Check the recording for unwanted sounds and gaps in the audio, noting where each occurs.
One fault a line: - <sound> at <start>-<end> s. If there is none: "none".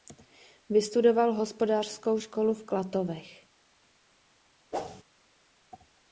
- whoosh at 4.7-5.0 s